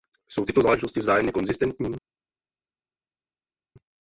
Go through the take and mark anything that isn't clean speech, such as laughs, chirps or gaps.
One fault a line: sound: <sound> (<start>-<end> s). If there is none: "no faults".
no faults